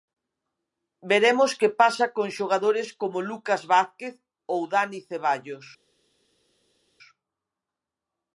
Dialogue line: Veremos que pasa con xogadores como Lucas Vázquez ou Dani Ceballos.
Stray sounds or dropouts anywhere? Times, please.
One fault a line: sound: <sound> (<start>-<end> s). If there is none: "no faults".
no faults